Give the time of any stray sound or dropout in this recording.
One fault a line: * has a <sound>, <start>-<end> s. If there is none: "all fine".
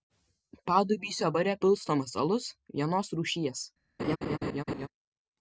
* has a laugh, 4.0-4.9 s